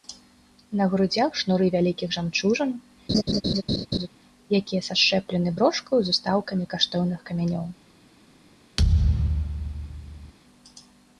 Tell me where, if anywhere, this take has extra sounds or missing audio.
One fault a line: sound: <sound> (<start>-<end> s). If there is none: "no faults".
sound: laugh (3.1-4.1 s)
sound: thud (8.8-10.3 s)